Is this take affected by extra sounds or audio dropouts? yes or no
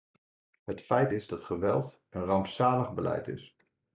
no